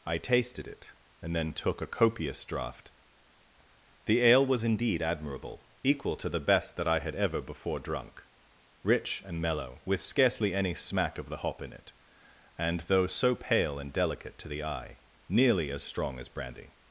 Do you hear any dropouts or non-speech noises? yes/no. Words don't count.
no